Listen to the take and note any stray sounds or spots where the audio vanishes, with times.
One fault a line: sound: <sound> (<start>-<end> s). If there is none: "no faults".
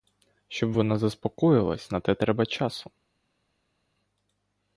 no faults